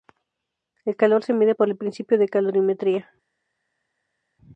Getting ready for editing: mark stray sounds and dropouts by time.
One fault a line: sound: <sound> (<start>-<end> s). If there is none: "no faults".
no faults